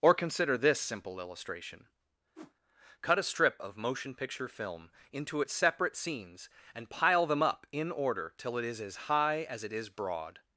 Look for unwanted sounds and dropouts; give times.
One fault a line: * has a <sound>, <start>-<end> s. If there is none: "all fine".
* has a whoosh, 2.3-2.5 s